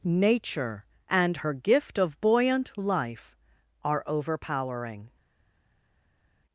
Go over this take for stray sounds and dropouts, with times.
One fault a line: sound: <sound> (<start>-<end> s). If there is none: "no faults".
no faults